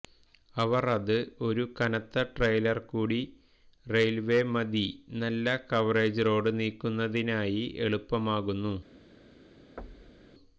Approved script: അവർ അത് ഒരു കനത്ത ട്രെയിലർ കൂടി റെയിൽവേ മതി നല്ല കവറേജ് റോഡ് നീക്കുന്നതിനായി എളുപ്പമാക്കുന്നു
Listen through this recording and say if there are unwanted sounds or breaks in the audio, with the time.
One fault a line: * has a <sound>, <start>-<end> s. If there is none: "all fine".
* has a thud, 9.8-10.3 s